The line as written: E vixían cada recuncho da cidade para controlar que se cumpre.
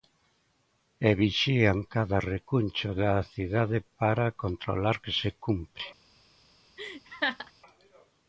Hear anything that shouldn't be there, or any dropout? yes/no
yes